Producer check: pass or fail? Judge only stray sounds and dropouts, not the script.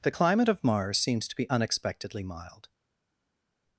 pass